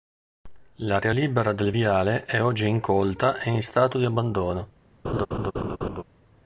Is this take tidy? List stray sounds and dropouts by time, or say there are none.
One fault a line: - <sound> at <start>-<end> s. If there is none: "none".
- laugh at 5.0-6.0 s